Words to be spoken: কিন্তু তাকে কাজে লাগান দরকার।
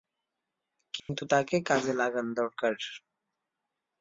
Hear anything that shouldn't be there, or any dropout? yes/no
yes